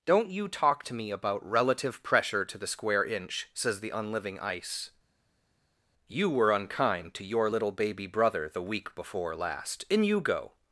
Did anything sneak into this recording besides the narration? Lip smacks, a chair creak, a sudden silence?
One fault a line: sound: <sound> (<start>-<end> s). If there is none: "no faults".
no faults